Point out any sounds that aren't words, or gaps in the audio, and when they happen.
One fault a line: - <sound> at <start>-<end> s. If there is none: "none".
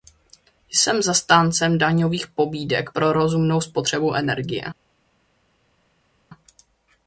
none